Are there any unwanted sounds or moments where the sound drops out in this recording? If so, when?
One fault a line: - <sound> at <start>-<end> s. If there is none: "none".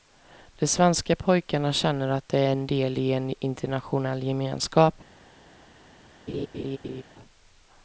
- laugh at 6.3-7.0 s